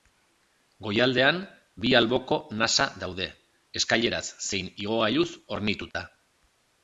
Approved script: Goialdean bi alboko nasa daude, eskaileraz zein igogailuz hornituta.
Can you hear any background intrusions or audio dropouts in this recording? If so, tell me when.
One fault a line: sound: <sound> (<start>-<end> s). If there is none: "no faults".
sound: dropout (5.9-5.9 s)